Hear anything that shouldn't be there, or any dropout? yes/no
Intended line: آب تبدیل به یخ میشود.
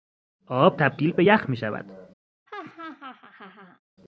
yes